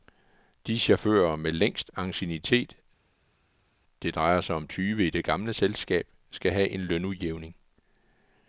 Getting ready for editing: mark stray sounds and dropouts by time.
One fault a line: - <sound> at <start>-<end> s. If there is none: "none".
none